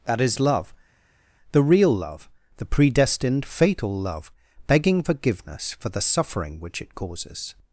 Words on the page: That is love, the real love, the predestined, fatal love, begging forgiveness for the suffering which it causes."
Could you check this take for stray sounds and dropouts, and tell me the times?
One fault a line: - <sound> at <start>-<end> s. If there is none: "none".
none